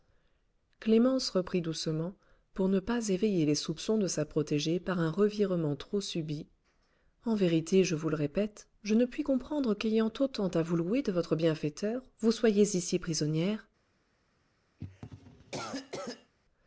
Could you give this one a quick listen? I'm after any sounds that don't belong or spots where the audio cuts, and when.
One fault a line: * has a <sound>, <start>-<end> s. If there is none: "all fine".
* has a cough, 14.8-16.3 s